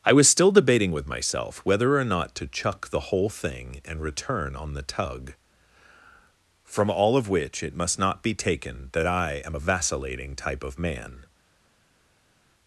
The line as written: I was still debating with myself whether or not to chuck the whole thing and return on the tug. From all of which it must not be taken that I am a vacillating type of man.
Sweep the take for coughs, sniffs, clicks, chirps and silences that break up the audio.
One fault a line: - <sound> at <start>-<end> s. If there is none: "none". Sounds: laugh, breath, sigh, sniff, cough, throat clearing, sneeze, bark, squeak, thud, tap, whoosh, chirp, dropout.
none